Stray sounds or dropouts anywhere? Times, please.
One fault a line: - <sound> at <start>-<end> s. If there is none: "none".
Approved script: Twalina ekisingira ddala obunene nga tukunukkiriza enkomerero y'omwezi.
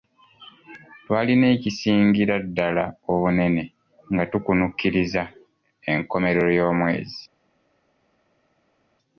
none